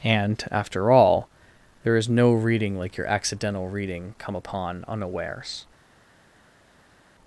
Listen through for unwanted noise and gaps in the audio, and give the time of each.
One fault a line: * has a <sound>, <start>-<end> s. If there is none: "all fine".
all fine